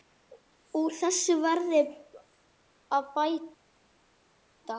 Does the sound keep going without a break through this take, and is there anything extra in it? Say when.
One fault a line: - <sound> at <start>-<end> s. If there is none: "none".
none